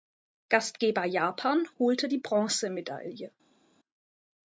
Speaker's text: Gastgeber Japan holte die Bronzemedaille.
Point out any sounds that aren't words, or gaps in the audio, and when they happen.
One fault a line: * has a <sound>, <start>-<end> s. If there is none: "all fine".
all fine